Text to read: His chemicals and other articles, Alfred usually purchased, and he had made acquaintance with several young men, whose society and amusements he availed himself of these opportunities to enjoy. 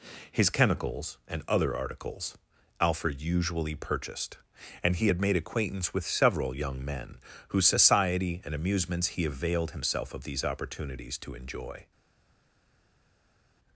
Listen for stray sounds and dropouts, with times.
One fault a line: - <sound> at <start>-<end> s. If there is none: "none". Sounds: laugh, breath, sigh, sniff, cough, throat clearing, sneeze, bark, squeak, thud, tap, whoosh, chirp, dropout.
none